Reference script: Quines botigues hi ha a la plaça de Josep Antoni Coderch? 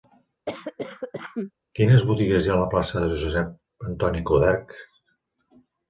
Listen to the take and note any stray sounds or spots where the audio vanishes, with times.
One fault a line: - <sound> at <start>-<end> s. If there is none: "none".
- cough at 0.5-1.5 s